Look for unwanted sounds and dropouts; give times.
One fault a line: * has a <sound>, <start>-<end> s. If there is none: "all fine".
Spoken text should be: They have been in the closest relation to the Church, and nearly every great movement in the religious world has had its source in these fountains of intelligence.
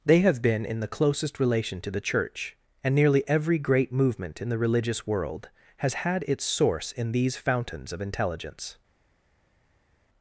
all fine